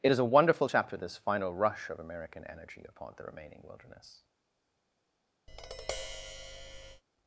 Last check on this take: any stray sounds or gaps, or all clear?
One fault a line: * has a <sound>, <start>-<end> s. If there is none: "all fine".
* has a tap, 5.5-7.0 s